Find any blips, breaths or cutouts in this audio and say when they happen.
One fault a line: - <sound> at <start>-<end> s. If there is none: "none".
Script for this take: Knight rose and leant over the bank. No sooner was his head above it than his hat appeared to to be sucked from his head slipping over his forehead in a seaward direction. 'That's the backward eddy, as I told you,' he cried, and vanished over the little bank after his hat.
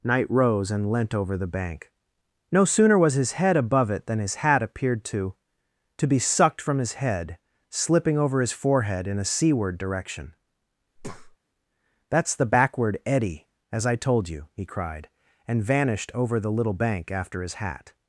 - breath at 11.0-11.4 s